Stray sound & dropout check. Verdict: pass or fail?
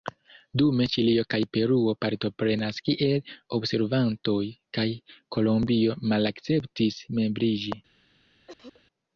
fail